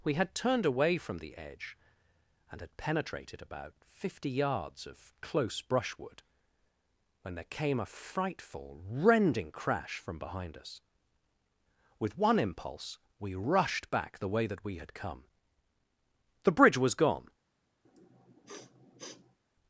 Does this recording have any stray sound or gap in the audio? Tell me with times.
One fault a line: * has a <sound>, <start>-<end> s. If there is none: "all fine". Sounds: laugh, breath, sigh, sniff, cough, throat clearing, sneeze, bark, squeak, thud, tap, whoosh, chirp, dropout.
* has a sniff, 17.8-19.4 s